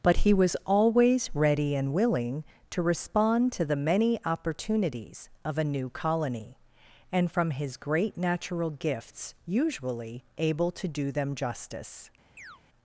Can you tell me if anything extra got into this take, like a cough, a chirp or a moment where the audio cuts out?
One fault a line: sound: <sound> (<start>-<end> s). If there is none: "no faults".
sound: chirp (12.4-12.6 s)